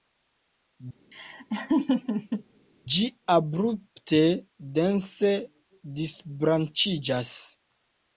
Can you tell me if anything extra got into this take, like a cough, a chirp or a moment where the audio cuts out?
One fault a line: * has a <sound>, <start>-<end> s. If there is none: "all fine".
* has a laugh, 1.1-2.4 s